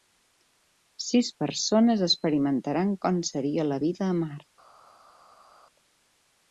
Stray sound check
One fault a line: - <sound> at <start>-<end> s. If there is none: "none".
none